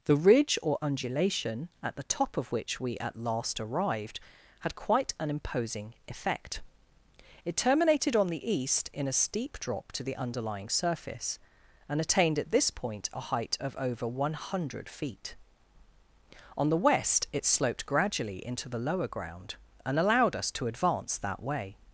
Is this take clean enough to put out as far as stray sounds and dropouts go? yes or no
yes